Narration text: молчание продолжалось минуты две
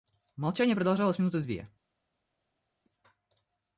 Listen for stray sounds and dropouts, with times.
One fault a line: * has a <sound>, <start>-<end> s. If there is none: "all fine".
all fine